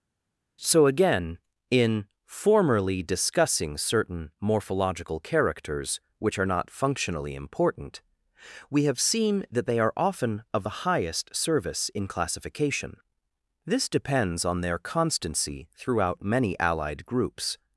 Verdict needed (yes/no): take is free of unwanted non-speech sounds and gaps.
yes